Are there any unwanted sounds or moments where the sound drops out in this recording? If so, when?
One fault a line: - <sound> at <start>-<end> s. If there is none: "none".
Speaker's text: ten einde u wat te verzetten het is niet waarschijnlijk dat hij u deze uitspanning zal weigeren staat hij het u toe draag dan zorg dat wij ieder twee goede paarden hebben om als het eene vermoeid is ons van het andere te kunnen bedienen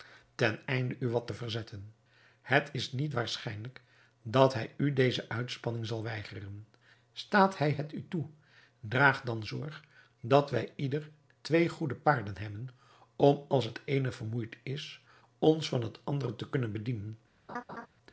- laugh at 17.5-17.9 s